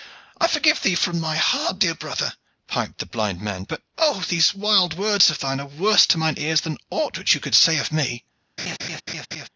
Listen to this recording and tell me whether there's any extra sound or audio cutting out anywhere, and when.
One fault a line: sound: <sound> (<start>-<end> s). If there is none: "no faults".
sound: laugh (8.6-9.5 s)